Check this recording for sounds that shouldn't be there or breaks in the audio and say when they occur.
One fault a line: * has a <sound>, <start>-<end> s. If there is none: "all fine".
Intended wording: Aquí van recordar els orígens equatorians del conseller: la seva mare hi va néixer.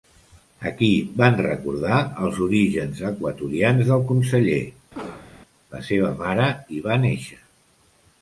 * has a cough, 4.9-5.3 s